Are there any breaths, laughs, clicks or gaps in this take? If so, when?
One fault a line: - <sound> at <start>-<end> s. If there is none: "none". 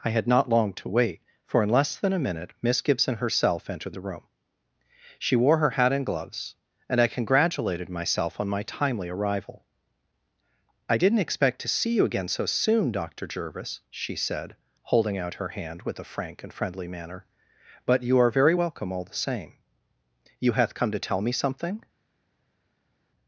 none